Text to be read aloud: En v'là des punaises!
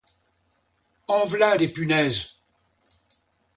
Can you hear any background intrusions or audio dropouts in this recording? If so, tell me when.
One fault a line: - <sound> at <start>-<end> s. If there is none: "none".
none